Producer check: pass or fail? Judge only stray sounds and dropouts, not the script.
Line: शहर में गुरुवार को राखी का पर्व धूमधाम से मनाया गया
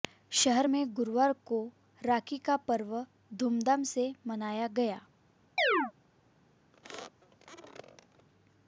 fail